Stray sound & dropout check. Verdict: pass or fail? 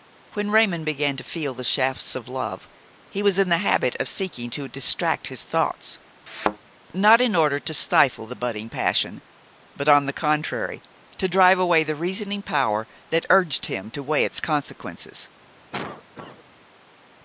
fail